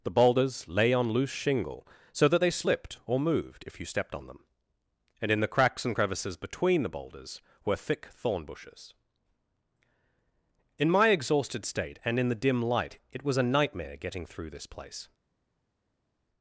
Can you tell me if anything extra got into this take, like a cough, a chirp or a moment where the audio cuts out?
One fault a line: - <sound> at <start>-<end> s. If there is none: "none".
none